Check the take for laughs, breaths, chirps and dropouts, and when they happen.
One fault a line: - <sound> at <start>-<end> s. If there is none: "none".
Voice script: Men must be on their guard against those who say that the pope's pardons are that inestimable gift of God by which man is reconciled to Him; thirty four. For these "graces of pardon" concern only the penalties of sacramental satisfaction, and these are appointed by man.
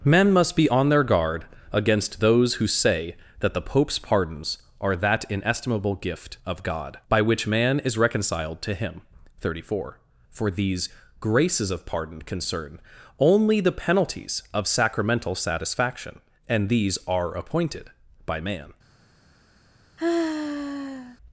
- sigh at 20.0-21.2 s